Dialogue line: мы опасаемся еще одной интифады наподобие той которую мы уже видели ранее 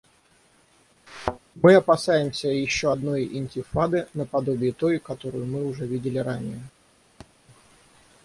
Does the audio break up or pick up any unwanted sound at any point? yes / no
yes